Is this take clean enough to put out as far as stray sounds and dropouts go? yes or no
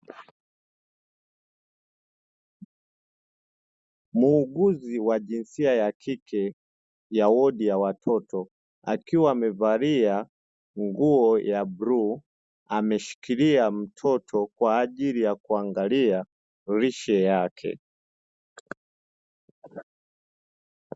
yes